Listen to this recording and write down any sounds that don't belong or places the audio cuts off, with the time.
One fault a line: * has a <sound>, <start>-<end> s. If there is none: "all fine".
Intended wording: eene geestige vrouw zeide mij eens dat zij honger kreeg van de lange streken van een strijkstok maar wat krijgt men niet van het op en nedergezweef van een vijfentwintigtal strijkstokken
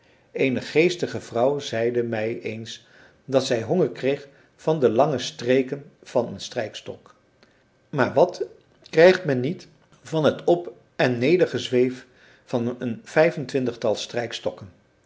all fine